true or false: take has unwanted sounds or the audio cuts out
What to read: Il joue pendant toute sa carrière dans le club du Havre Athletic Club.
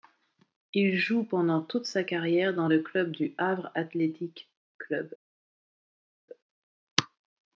false